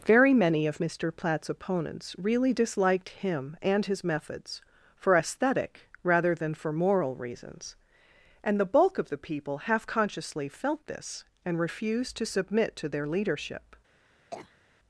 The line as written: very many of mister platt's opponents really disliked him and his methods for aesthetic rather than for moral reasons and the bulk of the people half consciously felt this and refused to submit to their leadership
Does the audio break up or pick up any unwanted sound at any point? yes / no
yes